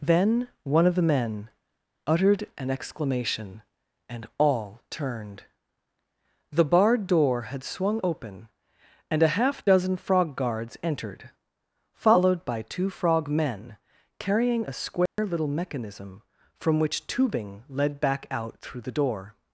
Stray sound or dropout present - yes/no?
yes